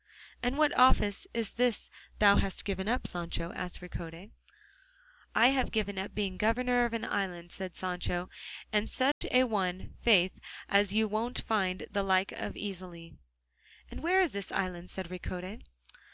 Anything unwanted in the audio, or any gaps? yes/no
yes